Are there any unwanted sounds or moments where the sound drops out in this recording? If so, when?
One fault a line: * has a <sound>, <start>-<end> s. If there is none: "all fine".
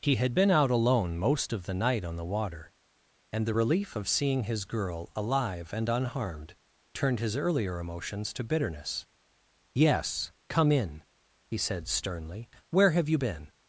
all fine